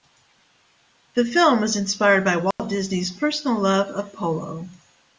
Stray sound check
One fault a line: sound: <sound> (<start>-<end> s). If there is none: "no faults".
sound: dropout (2.5-2.6 s)